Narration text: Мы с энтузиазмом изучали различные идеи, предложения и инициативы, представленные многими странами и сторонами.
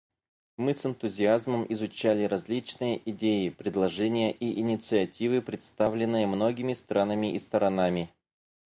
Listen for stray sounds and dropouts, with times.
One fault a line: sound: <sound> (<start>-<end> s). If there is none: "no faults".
no faults